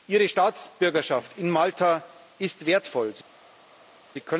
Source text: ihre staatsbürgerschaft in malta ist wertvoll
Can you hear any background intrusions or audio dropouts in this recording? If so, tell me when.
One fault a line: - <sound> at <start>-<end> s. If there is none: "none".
none